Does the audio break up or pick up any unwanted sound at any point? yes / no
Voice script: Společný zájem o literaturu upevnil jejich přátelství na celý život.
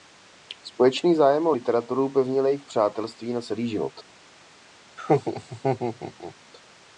yes